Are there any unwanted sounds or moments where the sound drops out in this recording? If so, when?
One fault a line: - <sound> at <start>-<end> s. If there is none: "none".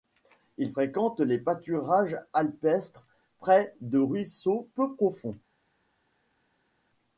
none